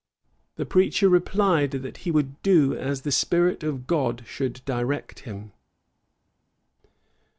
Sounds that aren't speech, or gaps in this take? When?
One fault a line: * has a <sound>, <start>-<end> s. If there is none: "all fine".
all fine